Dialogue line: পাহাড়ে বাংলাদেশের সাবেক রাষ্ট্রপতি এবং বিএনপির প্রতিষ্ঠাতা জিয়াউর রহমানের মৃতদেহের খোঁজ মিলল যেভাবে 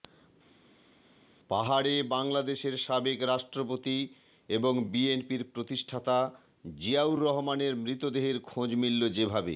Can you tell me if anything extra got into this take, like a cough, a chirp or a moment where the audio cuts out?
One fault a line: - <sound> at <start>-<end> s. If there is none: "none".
none